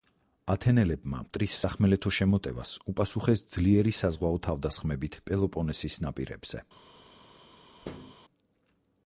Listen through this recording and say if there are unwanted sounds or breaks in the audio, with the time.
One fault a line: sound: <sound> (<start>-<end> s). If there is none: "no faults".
sound: thud (7.8-8.2 s)